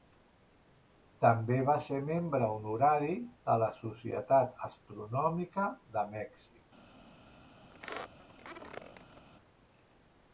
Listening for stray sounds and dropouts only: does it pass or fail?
fail